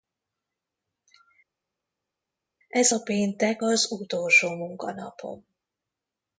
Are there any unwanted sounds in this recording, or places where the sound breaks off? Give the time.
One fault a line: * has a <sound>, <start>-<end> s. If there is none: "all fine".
all fine